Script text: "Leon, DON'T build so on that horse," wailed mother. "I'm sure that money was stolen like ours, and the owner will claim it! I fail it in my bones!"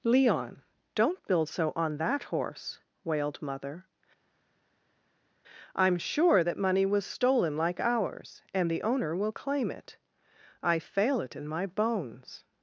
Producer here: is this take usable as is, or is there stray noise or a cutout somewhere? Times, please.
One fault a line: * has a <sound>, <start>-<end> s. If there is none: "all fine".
all fine